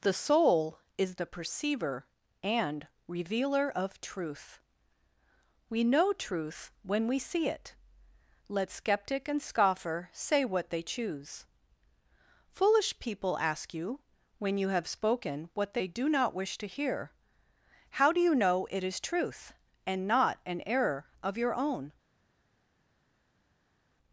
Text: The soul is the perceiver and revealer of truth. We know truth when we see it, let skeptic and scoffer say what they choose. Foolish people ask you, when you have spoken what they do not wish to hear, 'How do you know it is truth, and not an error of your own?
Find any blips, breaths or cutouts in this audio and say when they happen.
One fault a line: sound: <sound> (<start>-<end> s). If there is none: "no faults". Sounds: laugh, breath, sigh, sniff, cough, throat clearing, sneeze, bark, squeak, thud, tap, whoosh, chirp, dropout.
no faults